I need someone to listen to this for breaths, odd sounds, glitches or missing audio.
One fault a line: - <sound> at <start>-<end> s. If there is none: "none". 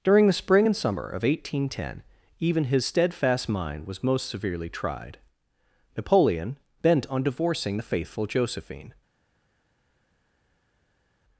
none